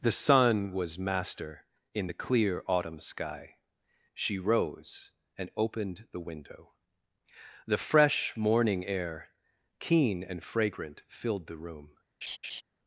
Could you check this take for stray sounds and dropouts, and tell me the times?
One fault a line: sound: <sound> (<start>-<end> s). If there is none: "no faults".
sound: laugh (12.2-12.6 s)